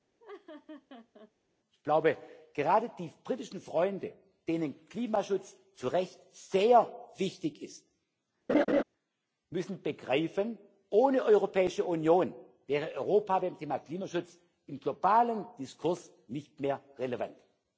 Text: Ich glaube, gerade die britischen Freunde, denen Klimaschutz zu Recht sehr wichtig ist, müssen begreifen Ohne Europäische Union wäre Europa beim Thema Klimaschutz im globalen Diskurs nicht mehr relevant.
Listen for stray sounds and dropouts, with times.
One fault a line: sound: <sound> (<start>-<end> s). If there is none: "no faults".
sound: laugh (0.2-1.3 s)
sound: laugh (8.5-8.8 s)